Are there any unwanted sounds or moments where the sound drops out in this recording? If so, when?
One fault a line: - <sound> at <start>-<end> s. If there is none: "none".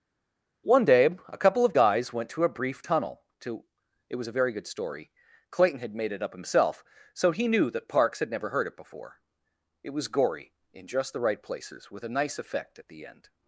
none